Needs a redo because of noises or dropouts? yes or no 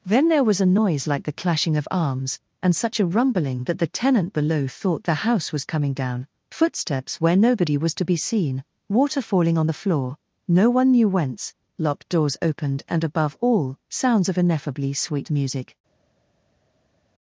no